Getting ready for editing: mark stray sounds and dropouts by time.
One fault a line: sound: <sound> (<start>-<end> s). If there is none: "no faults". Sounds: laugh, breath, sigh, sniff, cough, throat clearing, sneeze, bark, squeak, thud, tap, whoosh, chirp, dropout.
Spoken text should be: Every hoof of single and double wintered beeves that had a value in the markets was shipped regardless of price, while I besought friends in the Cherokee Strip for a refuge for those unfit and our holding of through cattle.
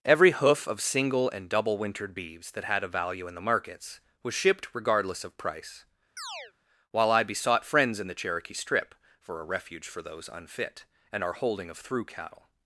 sound: chirp (6.2-6.5 s)